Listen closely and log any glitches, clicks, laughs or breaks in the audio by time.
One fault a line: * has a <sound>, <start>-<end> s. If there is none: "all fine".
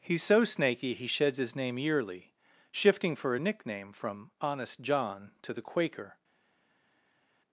all fine